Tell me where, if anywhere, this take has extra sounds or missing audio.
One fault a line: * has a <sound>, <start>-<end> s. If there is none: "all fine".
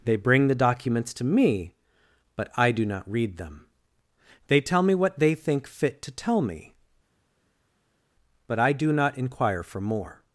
all fine